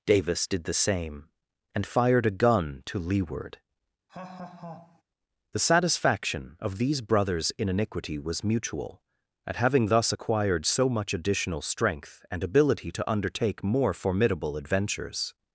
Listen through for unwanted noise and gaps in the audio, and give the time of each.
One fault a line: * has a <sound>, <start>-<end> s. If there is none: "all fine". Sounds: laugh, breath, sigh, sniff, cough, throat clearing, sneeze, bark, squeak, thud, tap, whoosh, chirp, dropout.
* has a laugh, 4.1-5.0 s